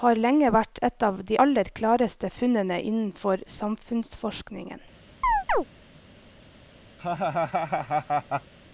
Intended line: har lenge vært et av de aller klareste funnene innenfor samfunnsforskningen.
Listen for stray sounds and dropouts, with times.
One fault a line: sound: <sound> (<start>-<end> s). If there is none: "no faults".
sound: chirp (5.2-5.7 s)
sound: laugh (7.0-8.5 s)